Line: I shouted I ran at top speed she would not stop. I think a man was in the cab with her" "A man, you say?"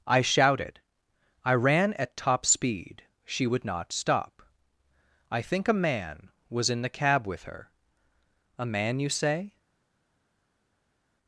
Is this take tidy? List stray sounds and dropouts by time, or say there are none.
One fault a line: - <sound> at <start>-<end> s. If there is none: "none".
none